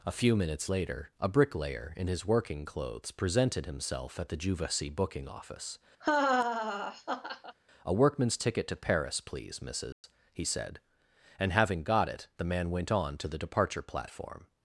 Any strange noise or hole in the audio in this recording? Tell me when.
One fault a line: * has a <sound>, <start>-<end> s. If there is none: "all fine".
* has a laugh, 6.0-7.6 s
* has a dropout, 9.9-10.0 s